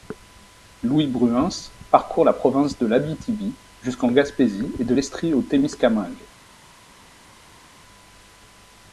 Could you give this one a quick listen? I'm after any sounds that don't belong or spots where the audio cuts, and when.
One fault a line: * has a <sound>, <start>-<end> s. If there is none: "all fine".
all fine